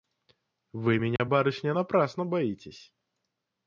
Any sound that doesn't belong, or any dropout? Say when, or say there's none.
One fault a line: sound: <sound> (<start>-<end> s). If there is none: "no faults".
sound: dropout (1.2-1.2 s)